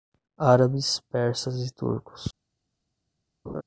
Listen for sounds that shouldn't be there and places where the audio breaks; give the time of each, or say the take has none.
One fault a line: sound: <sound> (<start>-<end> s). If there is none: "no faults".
sound: laugh (3.5-3.6 s)